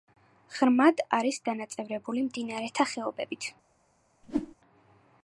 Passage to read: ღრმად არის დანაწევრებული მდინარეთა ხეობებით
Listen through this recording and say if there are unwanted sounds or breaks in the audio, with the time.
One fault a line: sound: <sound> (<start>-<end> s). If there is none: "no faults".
sound: whoosh (4.2-4.6 s)